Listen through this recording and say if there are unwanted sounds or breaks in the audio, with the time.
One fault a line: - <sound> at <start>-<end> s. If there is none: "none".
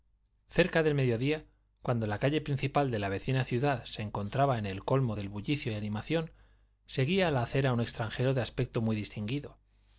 none